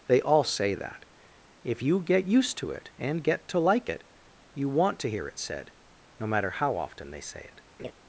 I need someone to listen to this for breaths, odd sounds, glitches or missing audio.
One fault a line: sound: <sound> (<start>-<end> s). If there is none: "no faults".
sound: laugh (7.8-7.9 s)